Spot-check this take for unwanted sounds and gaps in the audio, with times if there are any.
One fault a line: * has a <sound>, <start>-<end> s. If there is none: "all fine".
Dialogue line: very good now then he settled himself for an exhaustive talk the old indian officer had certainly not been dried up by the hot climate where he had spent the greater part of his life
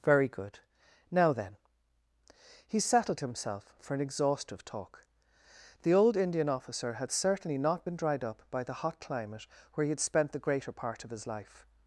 all fine